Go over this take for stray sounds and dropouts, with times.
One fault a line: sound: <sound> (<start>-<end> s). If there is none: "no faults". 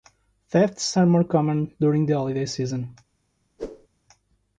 sound: whoosh (3.6-3.9 s)